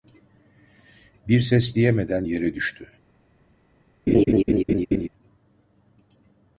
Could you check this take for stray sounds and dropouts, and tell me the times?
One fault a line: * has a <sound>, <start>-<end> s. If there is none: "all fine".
* has a laugh, 4.1-5.1 s